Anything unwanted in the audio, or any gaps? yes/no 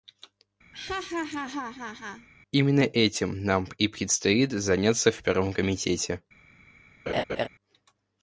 yes